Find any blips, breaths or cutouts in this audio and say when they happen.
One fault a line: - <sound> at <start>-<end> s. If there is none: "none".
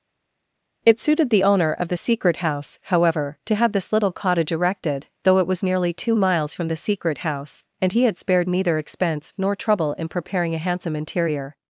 none